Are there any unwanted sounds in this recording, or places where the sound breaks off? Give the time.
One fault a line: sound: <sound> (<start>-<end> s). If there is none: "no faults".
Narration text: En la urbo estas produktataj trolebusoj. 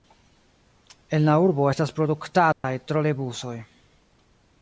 sound: dropout (2.5-2.6 s)